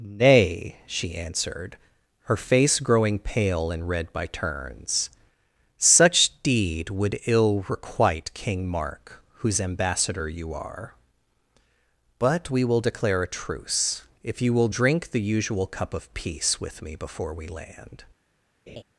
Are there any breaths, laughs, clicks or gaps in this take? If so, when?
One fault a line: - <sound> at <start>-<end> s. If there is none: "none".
- laugh at 18.7-18.8 s